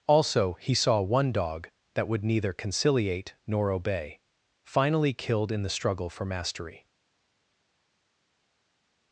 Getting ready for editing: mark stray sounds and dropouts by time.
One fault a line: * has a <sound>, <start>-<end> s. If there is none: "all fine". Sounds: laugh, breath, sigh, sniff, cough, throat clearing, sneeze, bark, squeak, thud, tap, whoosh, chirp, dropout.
all fine